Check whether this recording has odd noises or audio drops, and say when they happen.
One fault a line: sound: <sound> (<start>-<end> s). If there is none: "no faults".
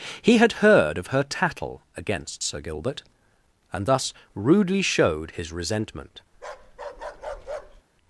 sound: bark (6.3-7.8 s)